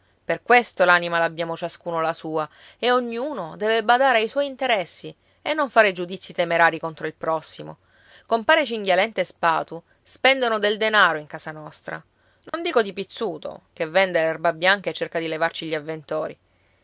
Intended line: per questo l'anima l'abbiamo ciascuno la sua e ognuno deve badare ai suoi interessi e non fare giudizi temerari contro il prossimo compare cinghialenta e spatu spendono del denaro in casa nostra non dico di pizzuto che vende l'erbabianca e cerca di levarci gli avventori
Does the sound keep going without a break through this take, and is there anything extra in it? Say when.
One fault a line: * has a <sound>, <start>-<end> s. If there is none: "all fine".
* has a dropout, 12.5-12.5 s